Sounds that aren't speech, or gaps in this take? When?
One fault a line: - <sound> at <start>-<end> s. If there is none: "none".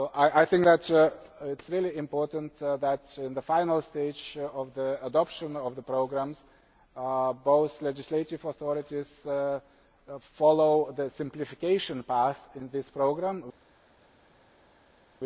none